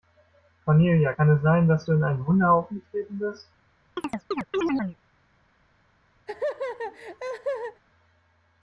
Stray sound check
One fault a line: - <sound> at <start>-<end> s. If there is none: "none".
- chirp at 4.0-5.0 s
- laugh at 6.3-7.8 s